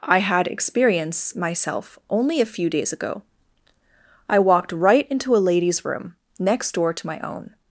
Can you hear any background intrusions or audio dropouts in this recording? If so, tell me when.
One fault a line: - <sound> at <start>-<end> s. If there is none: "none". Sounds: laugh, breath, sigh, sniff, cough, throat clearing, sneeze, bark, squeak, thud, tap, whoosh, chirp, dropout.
none